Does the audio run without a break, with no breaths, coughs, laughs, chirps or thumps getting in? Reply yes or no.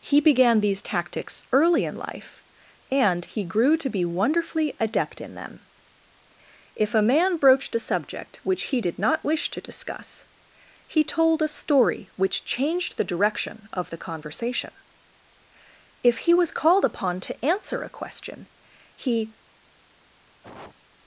no